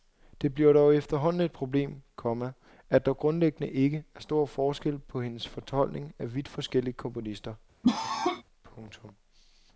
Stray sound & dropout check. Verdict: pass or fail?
fail